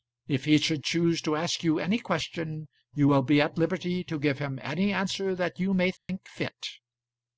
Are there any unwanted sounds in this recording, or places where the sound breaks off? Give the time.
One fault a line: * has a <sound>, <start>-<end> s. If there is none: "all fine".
* has a dropout, 6.0-6.1 s